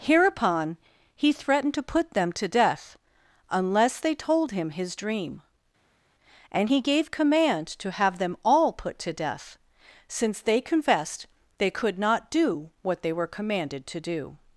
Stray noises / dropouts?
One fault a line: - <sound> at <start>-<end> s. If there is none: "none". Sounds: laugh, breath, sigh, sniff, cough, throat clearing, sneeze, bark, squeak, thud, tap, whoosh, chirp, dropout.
none